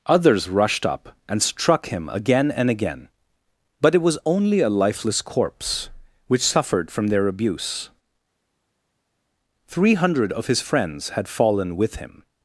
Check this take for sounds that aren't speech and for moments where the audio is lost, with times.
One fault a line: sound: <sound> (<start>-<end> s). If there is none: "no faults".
no faults